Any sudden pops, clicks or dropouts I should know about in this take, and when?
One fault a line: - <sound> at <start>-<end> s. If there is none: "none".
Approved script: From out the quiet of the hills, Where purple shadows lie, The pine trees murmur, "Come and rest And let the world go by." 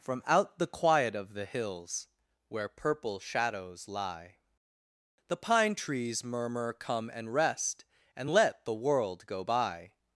none